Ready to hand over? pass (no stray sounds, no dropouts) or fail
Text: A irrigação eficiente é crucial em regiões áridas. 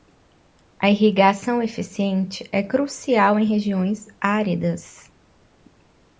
pass